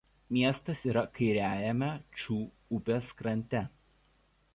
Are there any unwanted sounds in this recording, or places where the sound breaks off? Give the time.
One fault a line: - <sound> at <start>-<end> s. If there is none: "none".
none